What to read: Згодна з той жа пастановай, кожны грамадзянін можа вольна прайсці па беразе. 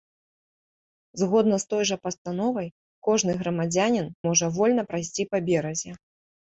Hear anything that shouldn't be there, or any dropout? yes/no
no